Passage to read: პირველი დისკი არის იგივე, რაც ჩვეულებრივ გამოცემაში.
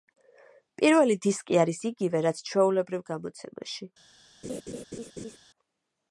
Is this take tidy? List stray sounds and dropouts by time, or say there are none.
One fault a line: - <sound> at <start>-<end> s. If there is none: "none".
- laugh at 4.4-5.4 s